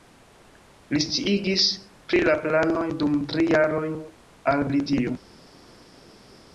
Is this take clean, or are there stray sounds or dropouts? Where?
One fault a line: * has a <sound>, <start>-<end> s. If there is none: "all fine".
all fine